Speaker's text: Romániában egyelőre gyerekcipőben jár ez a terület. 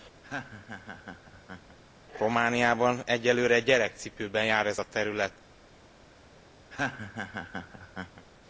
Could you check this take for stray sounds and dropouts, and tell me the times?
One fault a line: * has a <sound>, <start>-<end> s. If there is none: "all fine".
* has a laugh, 0.2-1.8 s
* has a laugh, 6.7-8.3 s